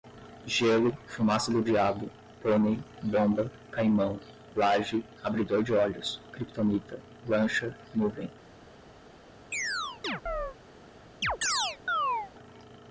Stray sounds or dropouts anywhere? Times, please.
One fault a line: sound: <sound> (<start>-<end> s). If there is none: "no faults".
sound: chirp (9.5-10.6 s)
sound: chirp (11.2-12.3 s)